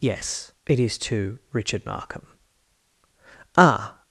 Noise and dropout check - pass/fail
pass